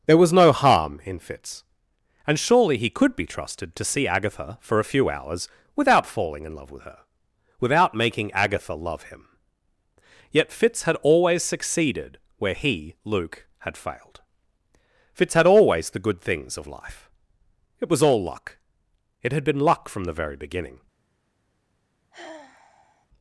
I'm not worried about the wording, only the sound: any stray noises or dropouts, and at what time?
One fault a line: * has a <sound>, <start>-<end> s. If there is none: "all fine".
* has a sigh, 22.1-23.1 s